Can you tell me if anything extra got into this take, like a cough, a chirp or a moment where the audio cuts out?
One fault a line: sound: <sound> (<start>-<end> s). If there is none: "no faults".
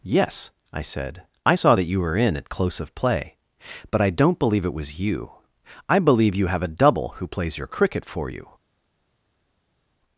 no faults